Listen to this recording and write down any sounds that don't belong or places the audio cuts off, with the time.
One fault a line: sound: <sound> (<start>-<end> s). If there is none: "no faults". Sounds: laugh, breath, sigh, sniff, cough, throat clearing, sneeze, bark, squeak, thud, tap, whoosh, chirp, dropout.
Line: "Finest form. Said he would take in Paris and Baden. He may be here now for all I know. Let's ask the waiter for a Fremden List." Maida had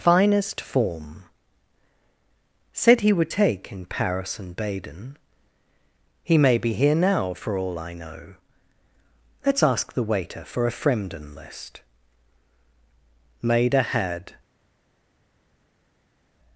no faults